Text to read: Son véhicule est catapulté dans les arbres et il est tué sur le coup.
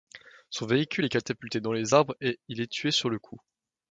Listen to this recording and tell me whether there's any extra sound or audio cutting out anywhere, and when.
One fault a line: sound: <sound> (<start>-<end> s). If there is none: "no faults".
no faults